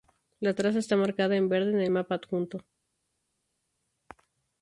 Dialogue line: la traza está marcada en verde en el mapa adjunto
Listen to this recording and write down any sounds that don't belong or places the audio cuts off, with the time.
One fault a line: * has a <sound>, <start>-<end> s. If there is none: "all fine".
all fine